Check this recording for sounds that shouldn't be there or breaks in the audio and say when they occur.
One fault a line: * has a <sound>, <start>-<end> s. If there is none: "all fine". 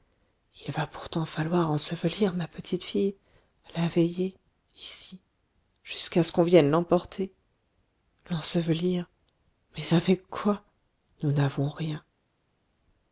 all fine